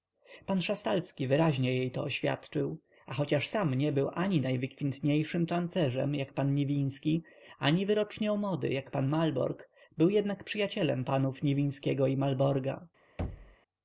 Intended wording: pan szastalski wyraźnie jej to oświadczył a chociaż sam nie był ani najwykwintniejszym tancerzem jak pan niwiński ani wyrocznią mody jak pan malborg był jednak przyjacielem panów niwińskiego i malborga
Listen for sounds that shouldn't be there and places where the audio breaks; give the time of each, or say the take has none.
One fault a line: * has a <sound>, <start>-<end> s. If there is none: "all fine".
* has a thud, 13.2-13.6 s